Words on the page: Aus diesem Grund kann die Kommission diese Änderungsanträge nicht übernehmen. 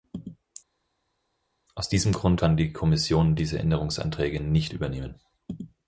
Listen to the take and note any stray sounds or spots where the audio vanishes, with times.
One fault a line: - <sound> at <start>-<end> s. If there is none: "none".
none